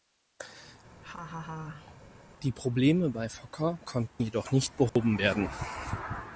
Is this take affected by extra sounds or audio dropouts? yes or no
yes